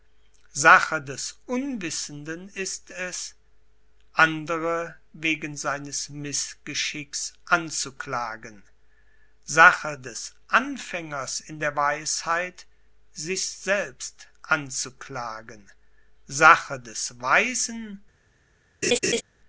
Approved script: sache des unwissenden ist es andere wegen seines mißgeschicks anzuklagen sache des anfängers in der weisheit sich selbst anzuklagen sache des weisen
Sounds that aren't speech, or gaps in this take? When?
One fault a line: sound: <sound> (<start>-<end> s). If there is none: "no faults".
sound: laugh (18.8-19.2 s)